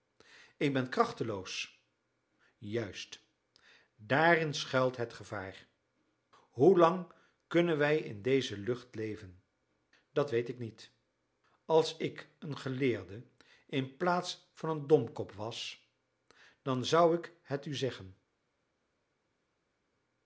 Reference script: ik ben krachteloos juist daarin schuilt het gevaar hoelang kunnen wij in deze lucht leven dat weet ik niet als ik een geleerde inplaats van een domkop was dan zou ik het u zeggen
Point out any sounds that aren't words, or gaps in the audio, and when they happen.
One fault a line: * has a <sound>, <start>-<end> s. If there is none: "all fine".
all fine